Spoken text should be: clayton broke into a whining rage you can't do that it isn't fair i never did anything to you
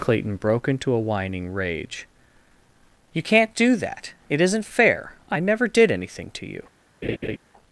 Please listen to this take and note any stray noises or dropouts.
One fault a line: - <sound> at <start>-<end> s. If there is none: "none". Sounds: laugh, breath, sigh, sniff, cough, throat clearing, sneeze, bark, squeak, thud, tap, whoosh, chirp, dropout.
- laugh at 7.0-7.4 s